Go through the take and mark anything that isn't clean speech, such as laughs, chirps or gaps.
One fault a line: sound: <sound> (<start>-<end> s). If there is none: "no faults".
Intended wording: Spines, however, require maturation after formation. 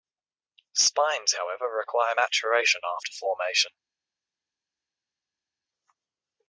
no faults